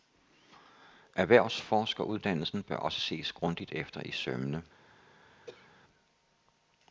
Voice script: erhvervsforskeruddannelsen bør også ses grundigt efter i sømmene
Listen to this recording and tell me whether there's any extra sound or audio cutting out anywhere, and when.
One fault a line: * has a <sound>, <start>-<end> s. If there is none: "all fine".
* has a throat clearing, 5.5-5.7 s